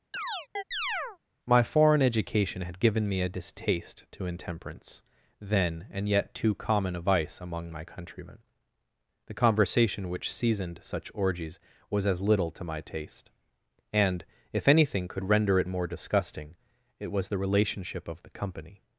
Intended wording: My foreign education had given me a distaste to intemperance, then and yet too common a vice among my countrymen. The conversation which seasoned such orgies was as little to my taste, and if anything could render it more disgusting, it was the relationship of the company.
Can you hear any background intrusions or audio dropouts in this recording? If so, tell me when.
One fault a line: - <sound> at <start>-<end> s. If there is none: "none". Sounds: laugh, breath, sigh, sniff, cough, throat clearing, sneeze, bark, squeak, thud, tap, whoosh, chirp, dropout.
- chirp at 0.1-1.2 s